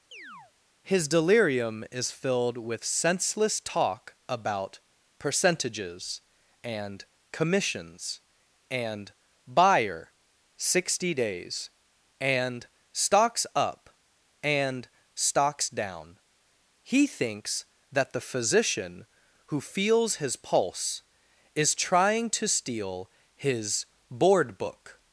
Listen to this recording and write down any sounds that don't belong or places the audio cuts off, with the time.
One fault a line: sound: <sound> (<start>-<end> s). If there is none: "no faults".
sound: chirp (0.1-0.5 s)